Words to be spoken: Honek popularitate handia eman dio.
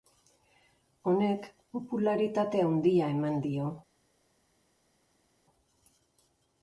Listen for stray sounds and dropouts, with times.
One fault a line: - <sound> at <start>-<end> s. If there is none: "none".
none